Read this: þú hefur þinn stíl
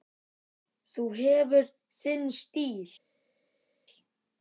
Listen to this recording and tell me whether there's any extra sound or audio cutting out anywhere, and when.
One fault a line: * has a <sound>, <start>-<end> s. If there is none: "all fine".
all fine